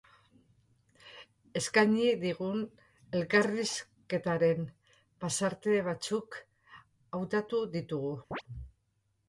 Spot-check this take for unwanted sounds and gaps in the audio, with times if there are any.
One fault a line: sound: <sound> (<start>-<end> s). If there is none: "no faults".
sound: chirp (8.3-8.4 s)